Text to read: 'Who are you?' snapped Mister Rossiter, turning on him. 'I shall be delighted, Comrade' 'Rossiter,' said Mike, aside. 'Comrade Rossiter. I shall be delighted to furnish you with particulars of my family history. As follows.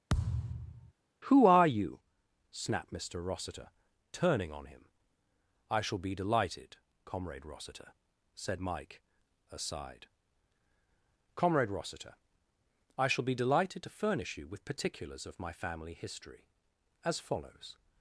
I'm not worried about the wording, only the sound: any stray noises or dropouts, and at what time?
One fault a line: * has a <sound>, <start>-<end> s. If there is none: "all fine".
* has a thud, 0.1-0.9 s